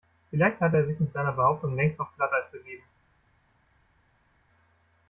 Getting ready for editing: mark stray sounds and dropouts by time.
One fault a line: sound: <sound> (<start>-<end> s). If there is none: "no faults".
no faults